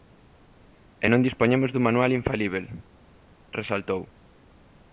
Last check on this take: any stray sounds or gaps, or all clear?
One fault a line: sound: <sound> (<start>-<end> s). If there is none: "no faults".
no faults